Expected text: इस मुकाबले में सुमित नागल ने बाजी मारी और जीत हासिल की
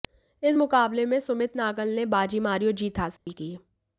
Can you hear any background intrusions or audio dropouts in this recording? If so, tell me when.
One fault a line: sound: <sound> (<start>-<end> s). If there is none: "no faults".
sound: dropout (3.2-3.3 s)